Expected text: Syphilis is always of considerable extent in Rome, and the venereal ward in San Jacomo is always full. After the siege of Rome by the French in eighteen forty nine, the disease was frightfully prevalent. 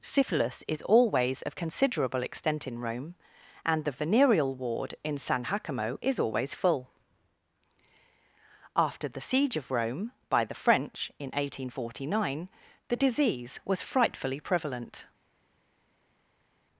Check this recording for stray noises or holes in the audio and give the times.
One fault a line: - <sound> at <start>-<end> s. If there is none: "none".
none